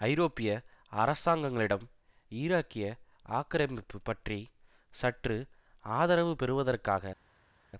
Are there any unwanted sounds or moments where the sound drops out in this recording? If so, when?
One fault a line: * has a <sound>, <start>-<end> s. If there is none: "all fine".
all fine